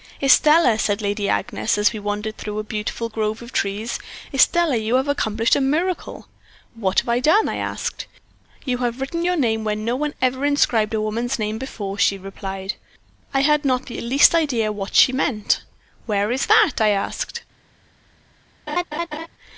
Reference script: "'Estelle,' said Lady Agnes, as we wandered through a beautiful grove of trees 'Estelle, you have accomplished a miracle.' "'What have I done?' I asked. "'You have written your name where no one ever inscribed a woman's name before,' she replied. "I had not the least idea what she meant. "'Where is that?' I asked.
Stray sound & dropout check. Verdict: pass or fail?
fail